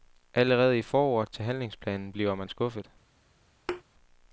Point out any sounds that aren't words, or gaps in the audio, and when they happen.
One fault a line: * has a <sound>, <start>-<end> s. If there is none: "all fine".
* has a thud, 3.7-3.8 s